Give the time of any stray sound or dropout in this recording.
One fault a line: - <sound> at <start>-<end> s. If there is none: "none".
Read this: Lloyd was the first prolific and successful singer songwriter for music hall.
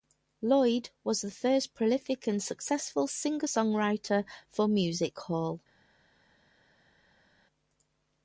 none